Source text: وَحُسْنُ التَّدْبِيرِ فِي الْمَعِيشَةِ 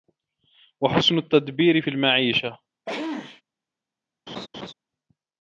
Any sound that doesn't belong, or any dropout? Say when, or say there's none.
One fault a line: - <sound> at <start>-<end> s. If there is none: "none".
- sneeze at 2.9-3.4 s
- laugh at 4.3-4.7 s